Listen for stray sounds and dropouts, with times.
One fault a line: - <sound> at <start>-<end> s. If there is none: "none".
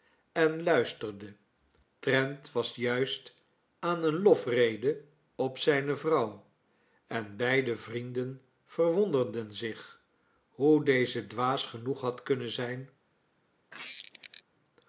- squeak at 13.7-14.4 s